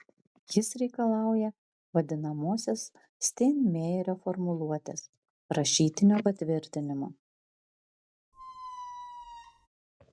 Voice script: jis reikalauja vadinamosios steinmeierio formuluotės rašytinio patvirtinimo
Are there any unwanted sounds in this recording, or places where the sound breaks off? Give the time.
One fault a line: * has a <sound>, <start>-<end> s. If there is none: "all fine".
* has a squeak, 8.3-9.7 s